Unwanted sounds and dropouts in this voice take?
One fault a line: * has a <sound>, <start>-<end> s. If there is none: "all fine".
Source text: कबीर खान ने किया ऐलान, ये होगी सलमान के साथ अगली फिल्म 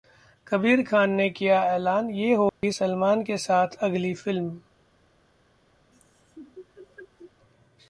* has a dropout, 2.5-2.6 s
* has a laugh, 5.9-7.3 s